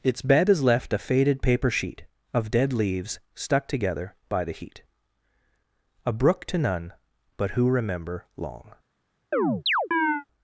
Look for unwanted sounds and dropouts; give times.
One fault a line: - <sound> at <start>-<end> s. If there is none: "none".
- chirp at 9.3-10.2 s